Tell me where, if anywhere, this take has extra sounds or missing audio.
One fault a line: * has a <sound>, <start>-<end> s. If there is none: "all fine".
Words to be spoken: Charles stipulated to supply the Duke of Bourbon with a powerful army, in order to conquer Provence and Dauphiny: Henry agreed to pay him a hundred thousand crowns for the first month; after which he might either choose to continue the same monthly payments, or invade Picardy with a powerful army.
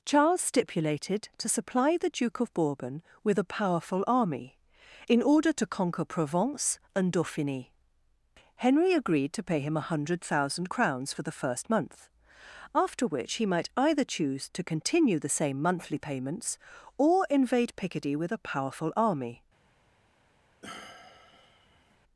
* has a sigh, 20.6-22.0 s